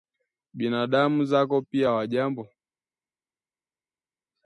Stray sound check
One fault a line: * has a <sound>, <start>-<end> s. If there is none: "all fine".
all fine